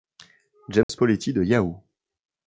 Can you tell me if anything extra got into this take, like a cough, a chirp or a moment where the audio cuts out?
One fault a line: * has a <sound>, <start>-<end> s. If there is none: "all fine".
* has a dropout, 0.8-0.9 s